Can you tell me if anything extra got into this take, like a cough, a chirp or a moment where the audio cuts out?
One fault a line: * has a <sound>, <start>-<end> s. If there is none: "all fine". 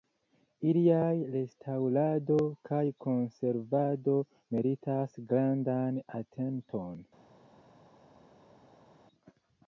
all fine